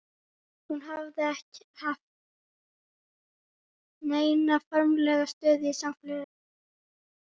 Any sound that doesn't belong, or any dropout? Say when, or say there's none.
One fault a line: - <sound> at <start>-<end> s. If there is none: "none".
none